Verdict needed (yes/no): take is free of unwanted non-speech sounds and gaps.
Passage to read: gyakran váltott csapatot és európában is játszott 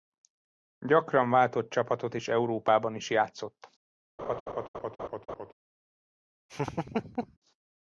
no